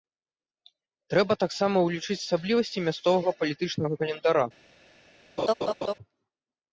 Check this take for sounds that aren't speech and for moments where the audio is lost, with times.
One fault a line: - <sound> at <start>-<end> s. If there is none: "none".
- laugh at 5.4-5.9 s